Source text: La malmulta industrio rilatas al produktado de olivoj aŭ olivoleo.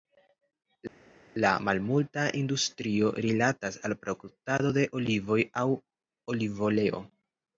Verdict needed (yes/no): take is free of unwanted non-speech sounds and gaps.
yes